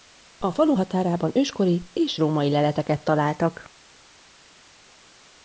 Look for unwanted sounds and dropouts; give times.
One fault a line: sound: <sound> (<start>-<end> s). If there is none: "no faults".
no faults